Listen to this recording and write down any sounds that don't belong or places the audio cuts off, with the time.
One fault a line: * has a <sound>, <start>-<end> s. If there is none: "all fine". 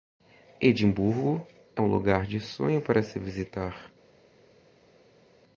all fine